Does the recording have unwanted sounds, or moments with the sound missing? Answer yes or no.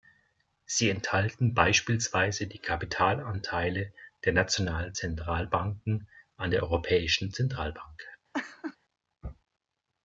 yes